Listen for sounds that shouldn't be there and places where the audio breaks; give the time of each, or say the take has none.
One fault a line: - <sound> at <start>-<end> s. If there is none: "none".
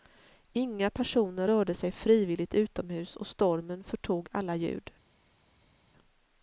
none